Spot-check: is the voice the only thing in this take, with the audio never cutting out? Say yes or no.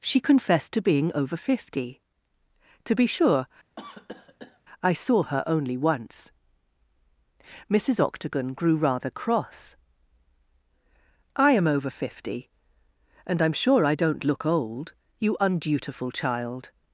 no